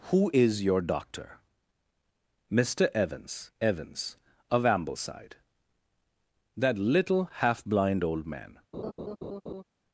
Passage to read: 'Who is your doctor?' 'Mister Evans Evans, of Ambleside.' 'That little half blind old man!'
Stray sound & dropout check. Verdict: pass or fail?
fail